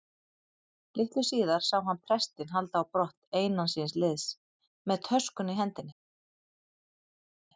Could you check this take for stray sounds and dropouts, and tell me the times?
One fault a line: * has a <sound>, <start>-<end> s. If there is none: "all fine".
all fine